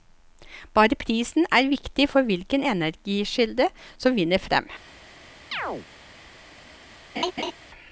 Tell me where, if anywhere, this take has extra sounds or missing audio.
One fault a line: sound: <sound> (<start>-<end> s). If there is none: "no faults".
sound: chirp (5.5-5.9 s)
sound: laugh (7.2-7.5 s)